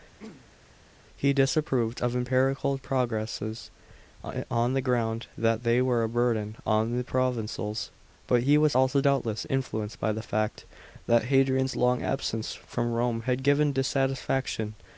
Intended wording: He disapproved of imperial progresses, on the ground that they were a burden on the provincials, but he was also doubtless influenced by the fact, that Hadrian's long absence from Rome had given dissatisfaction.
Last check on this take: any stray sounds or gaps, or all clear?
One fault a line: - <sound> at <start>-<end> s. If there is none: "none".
- throat clearing at 0.2-0.6 s